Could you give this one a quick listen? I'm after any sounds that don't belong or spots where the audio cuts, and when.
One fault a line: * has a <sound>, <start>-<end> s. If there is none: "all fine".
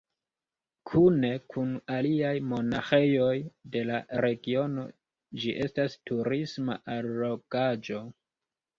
all fine